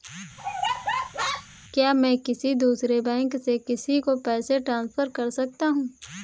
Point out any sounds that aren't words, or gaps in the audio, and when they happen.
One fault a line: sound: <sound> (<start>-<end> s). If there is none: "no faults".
sound: laugh (0.4-1.5 s)